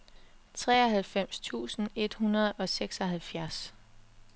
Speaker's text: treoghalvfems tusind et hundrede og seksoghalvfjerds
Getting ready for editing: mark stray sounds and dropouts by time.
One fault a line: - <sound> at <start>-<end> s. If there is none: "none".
none